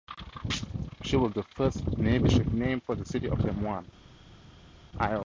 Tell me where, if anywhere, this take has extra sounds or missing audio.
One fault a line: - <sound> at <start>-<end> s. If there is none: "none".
none